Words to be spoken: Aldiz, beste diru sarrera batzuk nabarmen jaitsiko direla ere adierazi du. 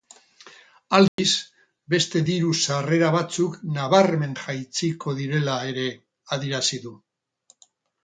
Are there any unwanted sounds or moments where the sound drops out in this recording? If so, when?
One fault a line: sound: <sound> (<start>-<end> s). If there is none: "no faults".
sound: dropout (1.1-1.2 s)